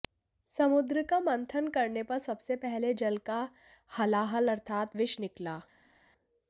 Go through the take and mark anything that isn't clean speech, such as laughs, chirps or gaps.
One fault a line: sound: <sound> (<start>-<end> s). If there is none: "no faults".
no faults